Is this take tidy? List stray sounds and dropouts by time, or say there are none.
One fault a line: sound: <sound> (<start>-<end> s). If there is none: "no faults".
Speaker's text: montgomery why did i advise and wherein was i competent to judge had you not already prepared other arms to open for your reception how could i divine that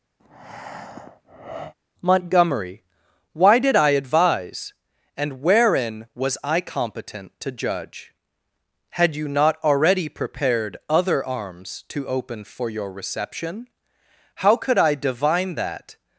sound: breath (0.2-1.7 s)